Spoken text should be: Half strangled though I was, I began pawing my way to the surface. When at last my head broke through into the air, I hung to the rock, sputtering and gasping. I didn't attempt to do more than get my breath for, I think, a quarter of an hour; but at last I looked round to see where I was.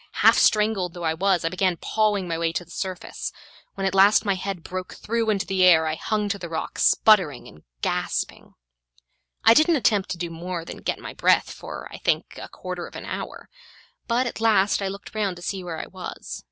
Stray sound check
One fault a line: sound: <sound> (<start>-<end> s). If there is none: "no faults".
no faults